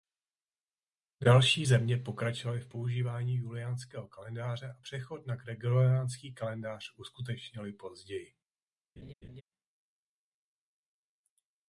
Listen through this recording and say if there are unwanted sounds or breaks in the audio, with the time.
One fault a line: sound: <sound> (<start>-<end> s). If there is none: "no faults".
sound: laugh (9.0-9.4 s)